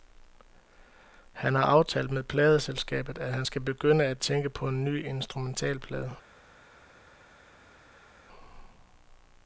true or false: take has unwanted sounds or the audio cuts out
false